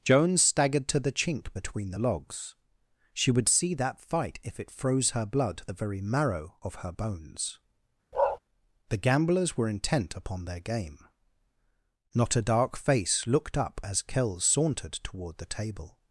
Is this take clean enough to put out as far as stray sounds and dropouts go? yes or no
no